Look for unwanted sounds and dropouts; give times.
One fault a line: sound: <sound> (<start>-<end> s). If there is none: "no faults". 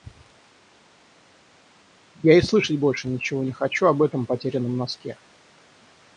no faults